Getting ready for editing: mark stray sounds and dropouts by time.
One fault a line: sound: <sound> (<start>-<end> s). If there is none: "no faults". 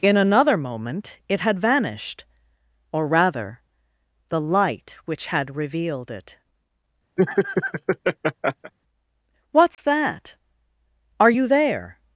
sound: laugh (7.2-8.7 s)
sound: dropout (9.7-9.8 s)